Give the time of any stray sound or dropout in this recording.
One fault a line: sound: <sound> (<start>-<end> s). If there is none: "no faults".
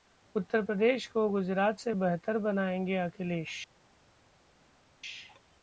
no faults